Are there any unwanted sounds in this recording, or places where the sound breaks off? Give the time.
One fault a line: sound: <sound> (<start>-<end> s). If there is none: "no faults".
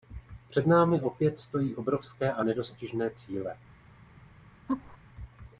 sound: laugh (4.7-5.0 s)